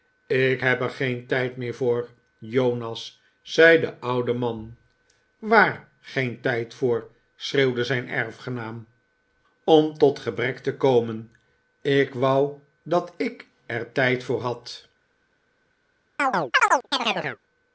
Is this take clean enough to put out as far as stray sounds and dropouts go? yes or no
no